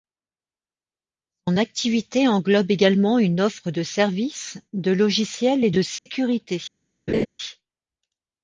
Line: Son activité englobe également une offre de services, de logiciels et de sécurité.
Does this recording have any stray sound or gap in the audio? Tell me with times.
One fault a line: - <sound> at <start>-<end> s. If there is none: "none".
- dropout at 6.0-6.1 s
- laugh at 7.1-7.3 s